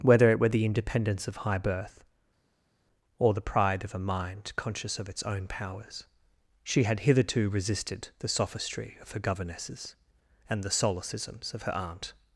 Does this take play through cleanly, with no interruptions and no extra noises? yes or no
yes